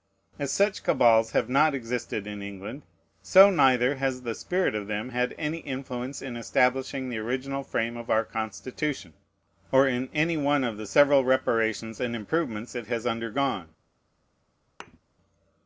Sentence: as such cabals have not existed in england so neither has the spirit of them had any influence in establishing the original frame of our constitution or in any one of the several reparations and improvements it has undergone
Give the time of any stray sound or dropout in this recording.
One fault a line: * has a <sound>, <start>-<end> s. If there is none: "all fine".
* has a thud, 14.8-15.0 s